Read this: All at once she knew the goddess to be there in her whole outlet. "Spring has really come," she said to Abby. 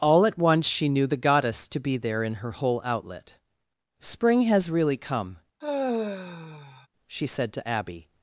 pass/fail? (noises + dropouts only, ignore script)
fail